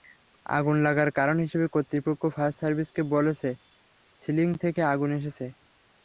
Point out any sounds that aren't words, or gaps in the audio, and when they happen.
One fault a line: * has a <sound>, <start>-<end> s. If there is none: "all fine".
all fine